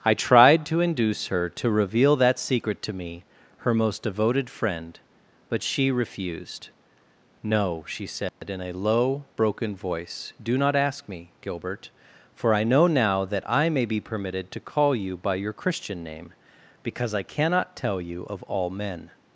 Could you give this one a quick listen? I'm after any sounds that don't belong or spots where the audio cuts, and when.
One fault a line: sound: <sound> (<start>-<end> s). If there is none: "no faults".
sound: dropout (8.3-8.4 s)